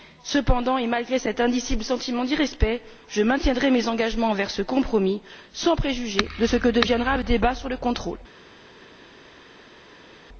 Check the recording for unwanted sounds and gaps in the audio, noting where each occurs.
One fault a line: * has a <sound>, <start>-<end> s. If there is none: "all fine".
all fine